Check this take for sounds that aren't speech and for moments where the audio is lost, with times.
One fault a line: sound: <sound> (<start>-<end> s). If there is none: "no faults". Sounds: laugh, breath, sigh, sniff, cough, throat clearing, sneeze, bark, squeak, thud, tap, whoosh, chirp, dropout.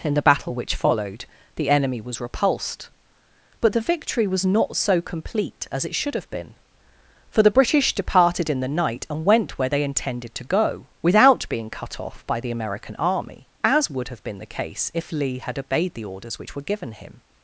no faults